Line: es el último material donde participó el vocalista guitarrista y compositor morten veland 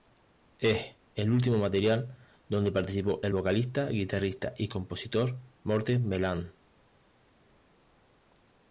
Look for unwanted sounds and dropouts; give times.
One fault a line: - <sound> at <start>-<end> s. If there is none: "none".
none